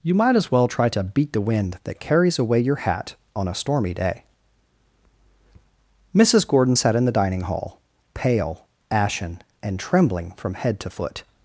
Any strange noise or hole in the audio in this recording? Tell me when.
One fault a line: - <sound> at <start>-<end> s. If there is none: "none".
none